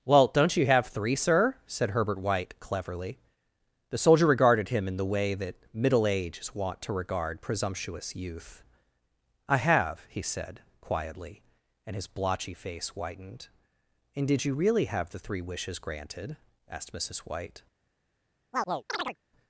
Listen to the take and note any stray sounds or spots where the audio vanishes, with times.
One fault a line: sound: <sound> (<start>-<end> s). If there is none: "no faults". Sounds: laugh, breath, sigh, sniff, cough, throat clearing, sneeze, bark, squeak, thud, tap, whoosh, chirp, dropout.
sound: chirp (18.5-19.2 s)